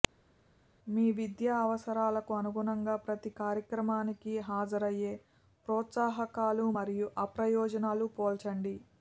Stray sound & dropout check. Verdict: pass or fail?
pass